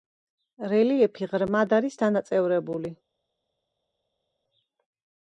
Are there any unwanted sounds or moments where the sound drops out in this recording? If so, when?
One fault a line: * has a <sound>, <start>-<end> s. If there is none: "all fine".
all fine